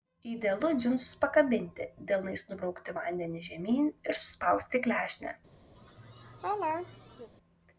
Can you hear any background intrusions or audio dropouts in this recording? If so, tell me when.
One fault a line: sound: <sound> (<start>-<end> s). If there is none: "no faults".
sound: laugh (5.8-7.3 s)